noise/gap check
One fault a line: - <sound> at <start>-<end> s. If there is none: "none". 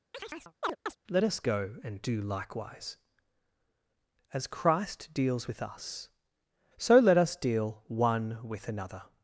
- chirp at 0.1-1.0 s